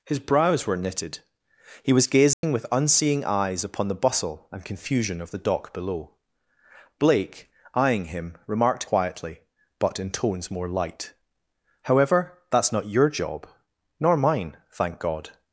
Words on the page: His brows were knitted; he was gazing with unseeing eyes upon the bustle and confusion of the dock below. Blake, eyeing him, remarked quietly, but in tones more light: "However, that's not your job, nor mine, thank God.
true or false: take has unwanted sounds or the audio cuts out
true